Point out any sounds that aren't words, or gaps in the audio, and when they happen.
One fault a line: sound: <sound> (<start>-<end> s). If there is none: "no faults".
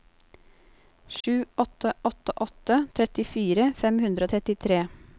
sound: dropout (1.2-1.2 s)